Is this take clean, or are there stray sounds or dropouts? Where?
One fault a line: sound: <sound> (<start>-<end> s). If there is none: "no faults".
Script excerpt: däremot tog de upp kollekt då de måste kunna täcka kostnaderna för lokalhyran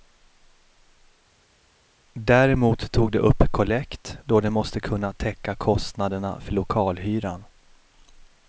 no faults